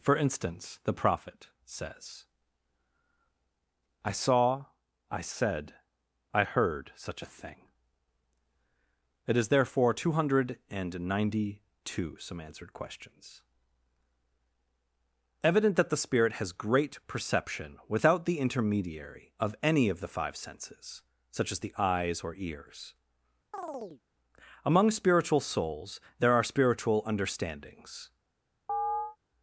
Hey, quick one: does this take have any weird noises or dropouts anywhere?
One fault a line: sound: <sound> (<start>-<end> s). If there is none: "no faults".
sound: chirp (23.5-24.0 s)
sound: chirp (28.7-29.2 s)